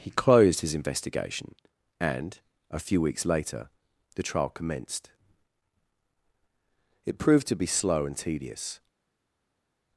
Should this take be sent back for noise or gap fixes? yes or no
no